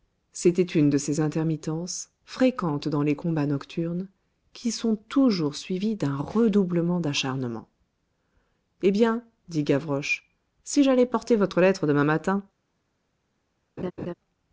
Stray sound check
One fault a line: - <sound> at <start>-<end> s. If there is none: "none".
- laugh at 13.8-14.1 s